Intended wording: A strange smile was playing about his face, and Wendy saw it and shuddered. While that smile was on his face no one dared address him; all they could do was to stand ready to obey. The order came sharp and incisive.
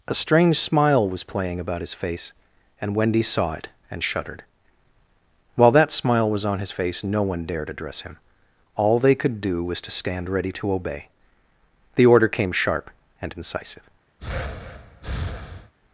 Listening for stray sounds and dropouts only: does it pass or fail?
fail